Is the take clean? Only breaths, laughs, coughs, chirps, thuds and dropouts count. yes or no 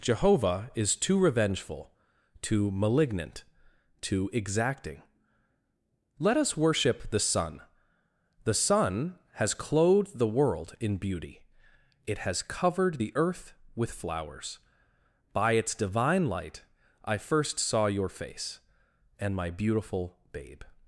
yes